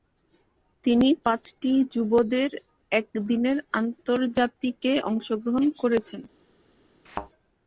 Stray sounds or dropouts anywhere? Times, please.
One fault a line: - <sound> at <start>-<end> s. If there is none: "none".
- thud at 7.1-7.3 s